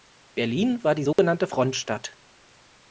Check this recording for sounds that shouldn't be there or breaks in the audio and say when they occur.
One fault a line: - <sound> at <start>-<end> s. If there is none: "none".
- dropout at 1.1-1.2 s